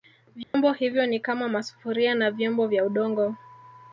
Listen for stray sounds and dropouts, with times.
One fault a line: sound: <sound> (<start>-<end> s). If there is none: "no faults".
sound: dropout (0.4-0.5 s)